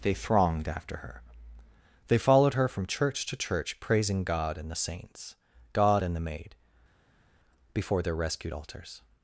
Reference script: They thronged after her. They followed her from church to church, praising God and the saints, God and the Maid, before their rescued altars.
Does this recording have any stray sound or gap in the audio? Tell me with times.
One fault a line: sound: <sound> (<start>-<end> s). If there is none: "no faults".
no faults